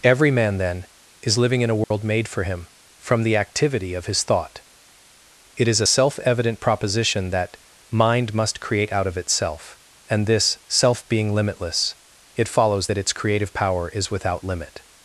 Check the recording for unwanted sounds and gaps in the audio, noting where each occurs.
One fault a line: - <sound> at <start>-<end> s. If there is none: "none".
- dropout at 1.8-1.9 s